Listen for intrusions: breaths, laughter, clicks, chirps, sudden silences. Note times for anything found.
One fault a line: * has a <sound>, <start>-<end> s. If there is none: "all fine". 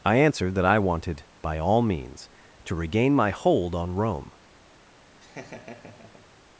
* has a laugh, 5.2-6.3 s